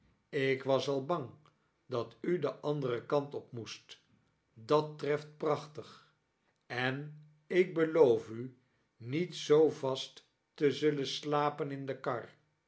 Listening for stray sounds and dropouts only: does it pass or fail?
pass